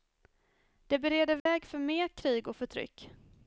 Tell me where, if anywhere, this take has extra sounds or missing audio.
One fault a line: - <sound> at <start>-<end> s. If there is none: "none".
- dropout at 1.4-1.5 s